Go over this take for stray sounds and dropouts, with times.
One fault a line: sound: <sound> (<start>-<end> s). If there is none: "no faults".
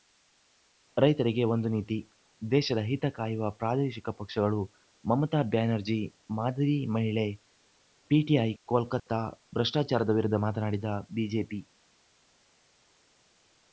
no faults